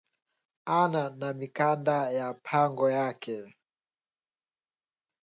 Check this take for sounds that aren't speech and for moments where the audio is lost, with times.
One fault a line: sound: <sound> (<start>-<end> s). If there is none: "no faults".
no faults